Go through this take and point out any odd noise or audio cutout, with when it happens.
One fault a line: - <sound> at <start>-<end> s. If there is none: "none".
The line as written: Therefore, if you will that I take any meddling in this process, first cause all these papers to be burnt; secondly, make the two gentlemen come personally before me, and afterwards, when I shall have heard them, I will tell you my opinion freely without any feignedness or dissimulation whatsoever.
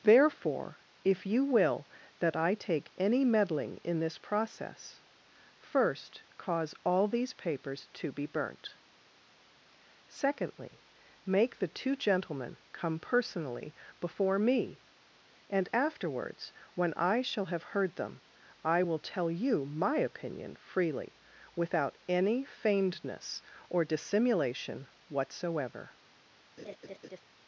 - laugh at 26.6-27.2 s